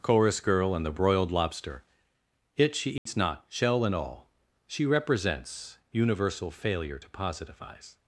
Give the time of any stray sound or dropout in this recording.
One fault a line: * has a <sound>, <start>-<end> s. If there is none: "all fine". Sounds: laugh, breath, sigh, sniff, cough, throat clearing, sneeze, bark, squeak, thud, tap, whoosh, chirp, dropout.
* has a dropout, 3.0-3.1 s